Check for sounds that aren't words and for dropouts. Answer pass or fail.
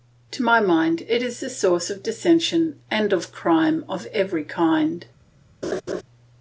fail